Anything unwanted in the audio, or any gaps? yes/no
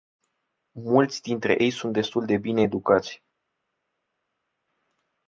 no